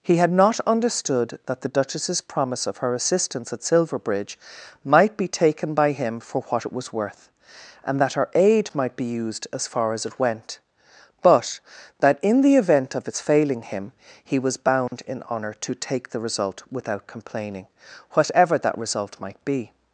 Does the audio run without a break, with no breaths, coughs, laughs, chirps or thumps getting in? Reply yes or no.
no